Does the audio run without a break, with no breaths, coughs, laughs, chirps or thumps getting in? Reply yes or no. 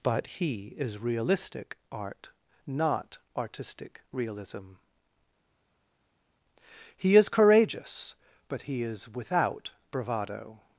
yes